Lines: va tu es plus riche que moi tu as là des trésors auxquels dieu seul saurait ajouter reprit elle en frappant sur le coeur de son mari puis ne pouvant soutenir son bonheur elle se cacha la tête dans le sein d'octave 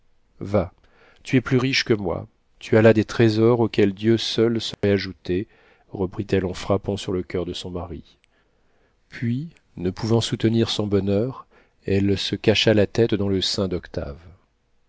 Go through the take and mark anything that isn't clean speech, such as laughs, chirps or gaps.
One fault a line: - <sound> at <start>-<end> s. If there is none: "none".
- dropout at 4.7-4.8 s